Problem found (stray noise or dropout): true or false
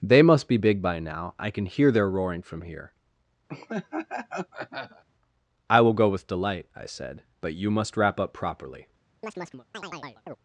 true